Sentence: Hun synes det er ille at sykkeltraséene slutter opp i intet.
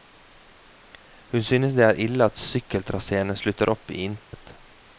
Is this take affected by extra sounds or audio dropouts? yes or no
yes